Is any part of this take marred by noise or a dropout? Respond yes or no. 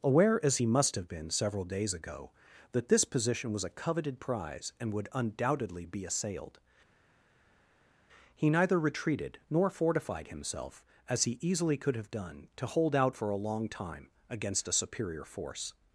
no